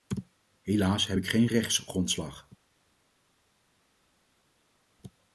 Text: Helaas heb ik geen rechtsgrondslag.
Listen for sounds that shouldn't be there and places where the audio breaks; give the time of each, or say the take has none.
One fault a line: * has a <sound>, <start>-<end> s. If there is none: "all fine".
all fine